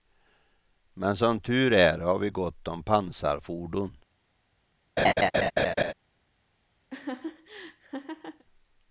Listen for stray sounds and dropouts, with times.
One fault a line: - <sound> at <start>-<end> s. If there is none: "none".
- laugh at 5.0-5.9 s
- laugh at 6.9-8.4 s